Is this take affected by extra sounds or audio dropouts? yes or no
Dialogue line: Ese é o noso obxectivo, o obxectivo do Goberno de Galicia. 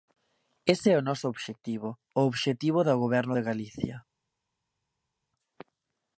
no